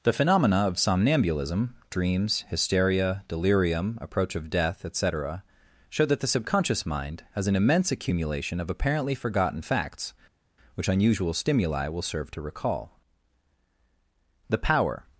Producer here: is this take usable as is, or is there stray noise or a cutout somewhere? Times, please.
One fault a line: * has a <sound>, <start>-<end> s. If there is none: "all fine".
all fine